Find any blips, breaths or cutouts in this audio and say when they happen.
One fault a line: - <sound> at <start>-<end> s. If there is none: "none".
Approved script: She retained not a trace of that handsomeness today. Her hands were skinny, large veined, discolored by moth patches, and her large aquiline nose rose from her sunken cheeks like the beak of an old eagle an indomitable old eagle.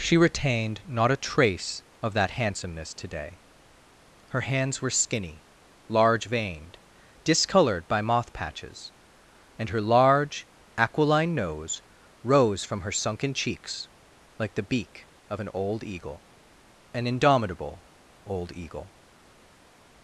none